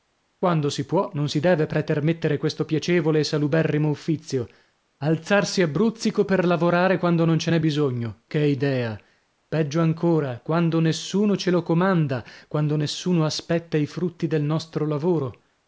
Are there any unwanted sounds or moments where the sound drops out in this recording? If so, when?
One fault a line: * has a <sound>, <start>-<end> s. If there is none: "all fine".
all fine